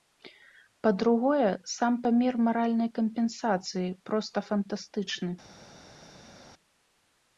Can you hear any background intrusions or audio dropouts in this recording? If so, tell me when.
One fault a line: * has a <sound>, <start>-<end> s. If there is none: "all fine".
all fine